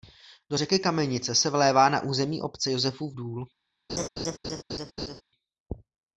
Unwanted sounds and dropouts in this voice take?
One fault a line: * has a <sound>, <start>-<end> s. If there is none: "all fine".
* has a laugh, 3.9-5.2 s